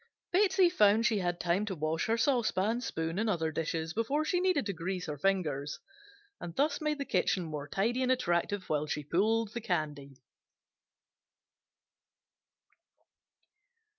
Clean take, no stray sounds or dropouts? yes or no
yes